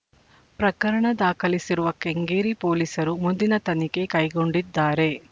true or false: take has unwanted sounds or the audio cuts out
false